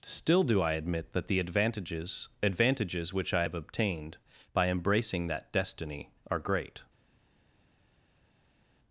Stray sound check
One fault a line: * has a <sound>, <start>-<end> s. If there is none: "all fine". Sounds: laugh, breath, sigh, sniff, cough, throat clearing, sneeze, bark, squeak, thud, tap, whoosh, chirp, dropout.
all fine